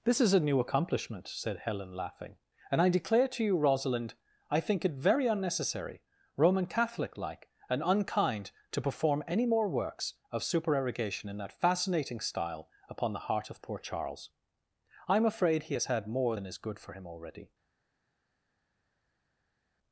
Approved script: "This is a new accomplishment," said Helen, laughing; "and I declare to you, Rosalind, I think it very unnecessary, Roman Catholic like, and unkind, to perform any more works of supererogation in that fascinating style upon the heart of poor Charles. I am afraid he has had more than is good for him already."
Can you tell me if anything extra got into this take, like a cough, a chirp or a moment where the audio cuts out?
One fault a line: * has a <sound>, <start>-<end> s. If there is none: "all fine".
all fine